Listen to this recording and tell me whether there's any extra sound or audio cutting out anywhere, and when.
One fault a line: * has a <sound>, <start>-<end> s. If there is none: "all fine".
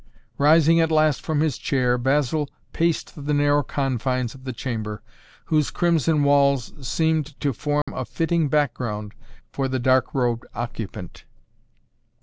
* has a dropout, 7.8-7.9 s